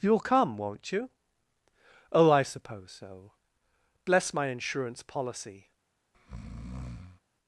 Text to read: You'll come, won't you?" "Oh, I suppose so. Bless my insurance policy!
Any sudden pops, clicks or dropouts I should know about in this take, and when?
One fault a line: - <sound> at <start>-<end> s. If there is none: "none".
- breath at 6.1-7.2 s